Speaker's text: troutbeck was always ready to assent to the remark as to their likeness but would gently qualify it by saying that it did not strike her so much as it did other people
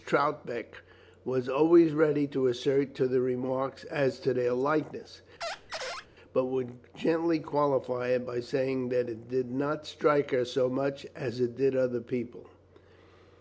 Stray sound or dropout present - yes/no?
yes